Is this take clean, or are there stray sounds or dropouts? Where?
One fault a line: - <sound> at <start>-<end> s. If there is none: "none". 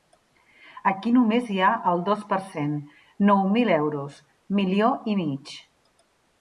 none